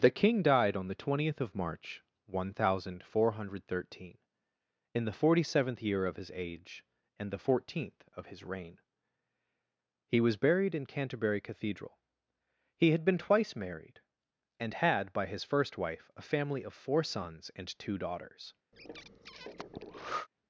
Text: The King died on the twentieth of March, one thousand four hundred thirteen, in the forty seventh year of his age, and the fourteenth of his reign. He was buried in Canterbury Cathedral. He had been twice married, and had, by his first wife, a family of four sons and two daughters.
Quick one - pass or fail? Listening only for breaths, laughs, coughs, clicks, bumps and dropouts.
fail